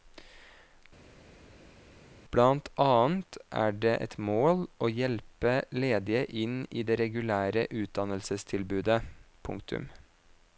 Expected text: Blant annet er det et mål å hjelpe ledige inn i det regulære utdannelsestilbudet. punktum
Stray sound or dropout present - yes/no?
no